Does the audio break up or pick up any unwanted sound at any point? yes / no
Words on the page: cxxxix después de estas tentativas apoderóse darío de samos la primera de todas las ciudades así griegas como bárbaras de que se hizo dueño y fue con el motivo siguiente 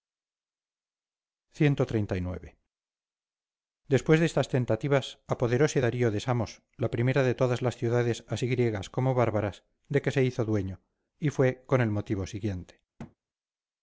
yes